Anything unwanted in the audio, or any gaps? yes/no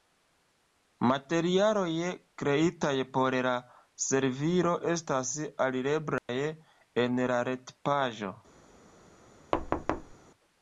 yes